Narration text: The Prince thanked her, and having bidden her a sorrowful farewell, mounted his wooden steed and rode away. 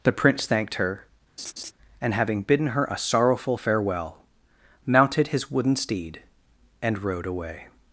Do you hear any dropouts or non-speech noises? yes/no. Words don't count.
yes